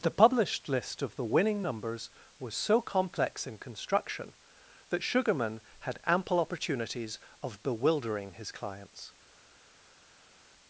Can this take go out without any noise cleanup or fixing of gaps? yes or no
yes